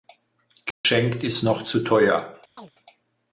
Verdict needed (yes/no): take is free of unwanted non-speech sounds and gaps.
no